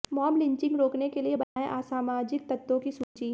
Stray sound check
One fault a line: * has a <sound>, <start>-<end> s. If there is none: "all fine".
* has a dropout, 1.4-1.6 s
* has a dropout, 3.0-3.2 s